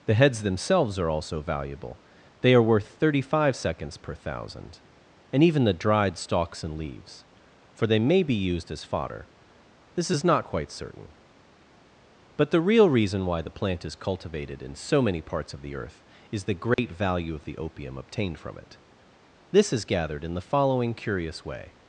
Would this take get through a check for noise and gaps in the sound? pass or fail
fail